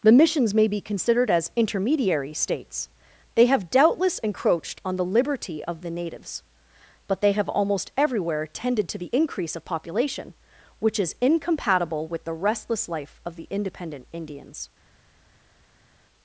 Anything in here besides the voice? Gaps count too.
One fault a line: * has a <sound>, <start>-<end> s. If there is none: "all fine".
all fine